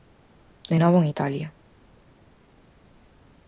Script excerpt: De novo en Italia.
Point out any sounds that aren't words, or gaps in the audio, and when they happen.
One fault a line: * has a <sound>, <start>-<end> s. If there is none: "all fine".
all fine